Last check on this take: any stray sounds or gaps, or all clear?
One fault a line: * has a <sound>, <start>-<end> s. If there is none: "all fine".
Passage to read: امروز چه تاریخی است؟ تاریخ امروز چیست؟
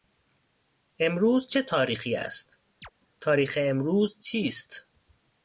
* has a chirp, 2.8-2.9 s